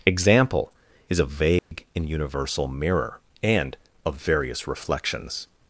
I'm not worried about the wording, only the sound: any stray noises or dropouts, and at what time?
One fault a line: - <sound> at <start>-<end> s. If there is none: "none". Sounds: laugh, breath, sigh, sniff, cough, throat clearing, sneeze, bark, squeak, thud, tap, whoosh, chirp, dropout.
- dropout at 1.6-1.7 s